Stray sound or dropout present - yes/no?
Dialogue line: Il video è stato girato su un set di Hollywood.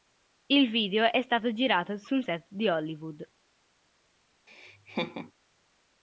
yes